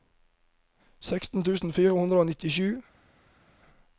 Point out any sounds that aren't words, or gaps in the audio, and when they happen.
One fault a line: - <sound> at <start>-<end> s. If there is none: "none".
none